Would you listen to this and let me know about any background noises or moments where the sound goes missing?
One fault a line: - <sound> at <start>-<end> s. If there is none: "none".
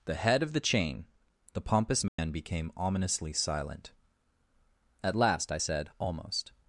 - dropout at 2.1-2.2 s